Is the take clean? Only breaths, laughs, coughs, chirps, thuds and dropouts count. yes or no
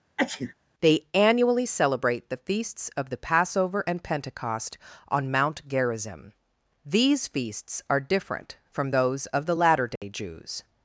no